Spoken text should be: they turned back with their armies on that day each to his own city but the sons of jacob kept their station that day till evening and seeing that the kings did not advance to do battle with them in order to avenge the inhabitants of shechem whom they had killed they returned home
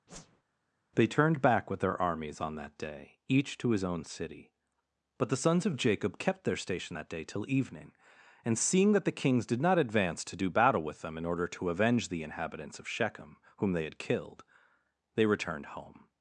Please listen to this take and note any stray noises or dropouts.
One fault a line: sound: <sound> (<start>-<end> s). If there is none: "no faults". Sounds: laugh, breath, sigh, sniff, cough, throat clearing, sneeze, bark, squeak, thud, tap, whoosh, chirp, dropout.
sound: whoosh (0.1-0.4 s)